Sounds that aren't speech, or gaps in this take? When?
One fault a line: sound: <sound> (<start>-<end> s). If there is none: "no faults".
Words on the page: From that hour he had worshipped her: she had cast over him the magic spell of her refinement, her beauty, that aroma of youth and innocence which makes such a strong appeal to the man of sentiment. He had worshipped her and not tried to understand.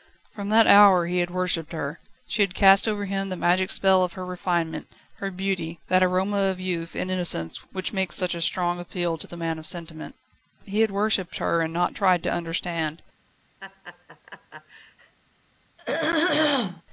sound: laugh (13.6-15.1 s)
sound: throat clearing (15.8-16.8 s)